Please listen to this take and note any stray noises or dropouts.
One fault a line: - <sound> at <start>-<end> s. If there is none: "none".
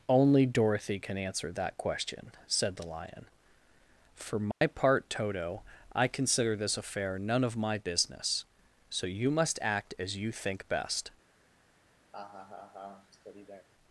- dropout at 4.5-4.6 s
- laugh at 12.1-13.7 s